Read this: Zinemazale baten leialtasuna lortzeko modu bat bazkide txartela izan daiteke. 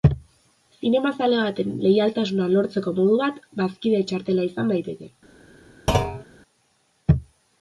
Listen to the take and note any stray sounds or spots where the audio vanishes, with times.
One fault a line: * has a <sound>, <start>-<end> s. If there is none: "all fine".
* has a thud, 5.9-6.2 s